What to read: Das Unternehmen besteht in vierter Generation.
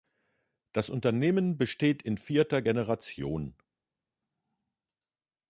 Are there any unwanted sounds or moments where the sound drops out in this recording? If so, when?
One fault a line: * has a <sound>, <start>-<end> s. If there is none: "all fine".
all fine